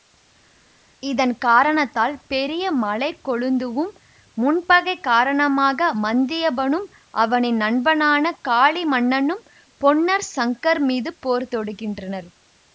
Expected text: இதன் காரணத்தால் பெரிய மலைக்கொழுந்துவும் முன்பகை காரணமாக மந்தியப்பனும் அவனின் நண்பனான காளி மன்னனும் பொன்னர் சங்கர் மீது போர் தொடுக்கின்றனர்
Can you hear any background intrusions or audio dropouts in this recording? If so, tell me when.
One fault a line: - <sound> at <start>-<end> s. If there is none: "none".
none